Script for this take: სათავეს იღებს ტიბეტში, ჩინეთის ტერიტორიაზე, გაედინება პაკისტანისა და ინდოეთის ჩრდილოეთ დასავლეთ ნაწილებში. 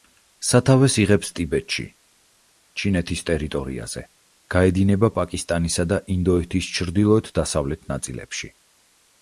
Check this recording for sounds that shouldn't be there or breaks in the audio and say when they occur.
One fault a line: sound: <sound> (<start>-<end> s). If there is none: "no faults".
no faults